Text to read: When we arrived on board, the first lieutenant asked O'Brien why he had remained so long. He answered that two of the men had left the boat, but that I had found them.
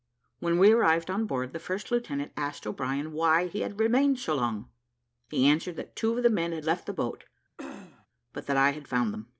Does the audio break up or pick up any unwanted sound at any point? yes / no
yes